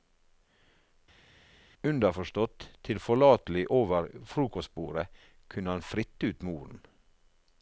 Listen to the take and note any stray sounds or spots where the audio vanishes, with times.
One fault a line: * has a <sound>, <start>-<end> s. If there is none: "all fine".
all fine